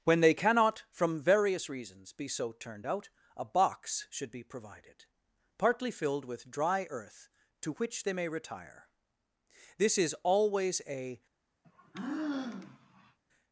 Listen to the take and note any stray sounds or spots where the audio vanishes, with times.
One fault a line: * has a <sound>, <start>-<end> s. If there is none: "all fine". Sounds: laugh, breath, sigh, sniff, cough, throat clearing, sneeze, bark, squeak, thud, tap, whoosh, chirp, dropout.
* has a sigh, 11.6-13.2 s